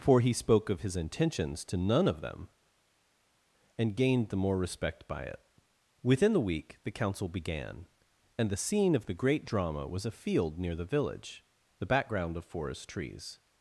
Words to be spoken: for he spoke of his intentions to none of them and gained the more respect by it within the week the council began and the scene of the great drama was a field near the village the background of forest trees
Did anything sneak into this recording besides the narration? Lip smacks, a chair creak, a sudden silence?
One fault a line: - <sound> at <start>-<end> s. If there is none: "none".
none